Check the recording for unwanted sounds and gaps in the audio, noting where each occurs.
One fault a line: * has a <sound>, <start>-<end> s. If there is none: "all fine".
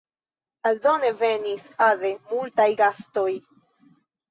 all fine